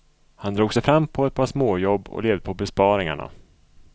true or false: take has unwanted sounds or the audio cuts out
false